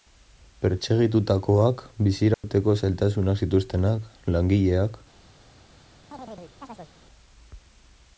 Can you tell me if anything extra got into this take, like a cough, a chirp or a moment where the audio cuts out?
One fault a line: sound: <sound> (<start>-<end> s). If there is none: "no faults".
sound: dropout (2.3-2.4 s)
sound: chirp (6.1-6.9 s)